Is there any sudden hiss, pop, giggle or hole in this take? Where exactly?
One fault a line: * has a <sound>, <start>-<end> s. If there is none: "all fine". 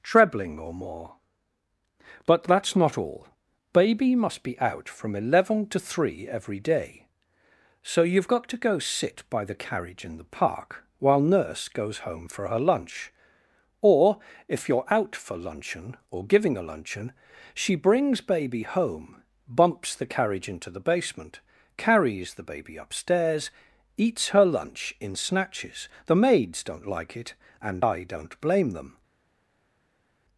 all fine